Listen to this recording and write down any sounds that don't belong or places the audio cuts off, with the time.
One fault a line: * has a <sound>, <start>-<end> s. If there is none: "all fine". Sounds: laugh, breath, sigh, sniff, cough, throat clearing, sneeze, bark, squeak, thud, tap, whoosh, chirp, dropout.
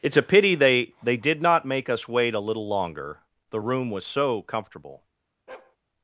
* has a bark, 5.5-5.8 s